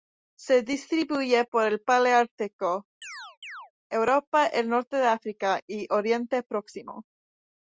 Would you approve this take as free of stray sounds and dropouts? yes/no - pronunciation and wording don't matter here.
no